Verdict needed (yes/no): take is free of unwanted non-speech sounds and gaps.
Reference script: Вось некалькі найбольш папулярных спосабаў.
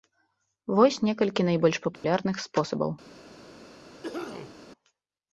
no